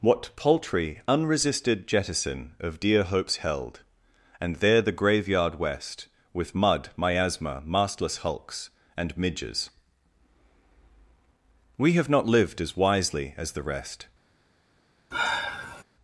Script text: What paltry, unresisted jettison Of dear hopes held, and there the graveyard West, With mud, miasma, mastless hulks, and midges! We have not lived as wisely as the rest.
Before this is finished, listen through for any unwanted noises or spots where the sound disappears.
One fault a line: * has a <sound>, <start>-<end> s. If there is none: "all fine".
* has a sigh, 15.1-15.8 s